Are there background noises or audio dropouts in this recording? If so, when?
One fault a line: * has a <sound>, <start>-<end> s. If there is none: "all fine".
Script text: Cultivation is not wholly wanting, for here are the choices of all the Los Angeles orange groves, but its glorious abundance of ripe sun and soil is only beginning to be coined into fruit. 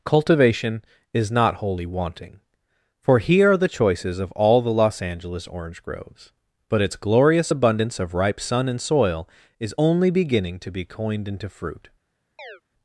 * has a chirp, 12.4-12.6 s